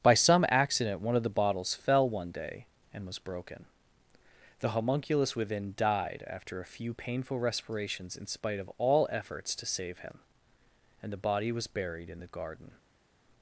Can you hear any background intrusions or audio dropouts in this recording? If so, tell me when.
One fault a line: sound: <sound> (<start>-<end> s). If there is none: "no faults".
no faults